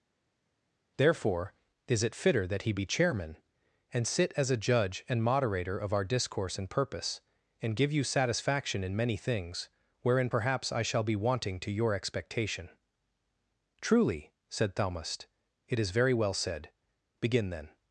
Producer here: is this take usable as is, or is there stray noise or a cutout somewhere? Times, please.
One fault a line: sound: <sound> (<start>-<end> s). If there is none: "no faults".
no faults